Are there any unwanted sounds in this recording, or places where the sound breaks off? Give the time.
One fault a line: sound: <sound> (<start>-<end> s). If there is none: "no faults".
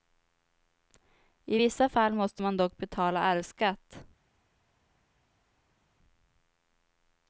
no faults